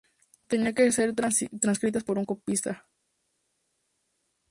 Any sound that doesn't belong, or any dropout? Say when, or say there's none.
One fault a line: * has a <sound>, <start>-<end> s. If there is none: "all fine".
all fine